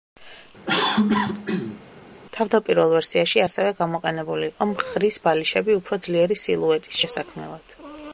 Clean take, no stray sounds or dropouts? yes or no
no